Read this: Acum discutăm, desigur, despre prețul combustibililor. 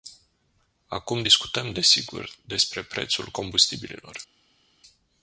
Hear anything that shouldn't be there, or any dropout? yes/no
no